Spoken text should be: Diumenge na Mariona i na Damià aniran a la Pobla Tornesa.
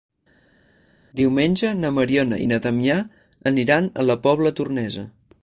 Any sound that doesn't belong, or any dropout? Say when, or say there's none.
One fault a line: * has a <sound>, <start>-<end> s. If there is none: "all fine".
all fine